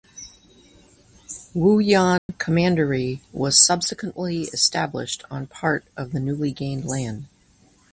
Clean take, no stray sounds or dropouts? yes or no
no